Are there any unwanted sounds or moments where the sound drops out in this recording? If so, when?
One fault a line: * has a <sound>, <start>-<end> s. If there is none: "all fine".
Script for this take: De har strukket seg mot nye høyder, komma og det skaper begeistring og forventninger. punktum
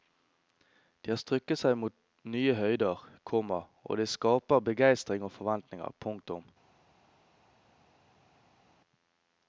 all fine